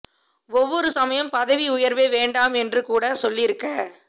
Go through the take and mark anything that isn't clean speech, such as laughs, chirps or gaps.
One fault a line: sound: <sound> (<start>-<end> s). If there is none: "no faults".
no faults